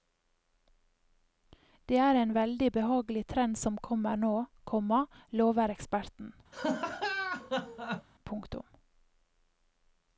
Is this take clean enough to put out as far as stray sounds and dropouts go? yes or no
no